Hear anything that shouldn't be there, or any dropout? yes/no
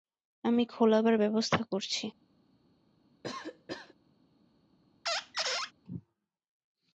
yes